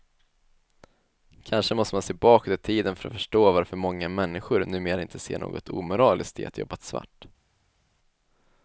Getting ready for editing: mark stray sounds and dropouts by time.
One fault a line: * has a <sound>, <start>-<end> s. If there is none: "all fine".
all fine